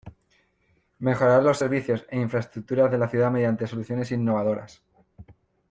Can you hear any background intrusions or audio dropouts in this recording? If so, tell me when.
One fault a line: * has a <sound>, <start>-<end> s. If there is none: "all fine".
all fine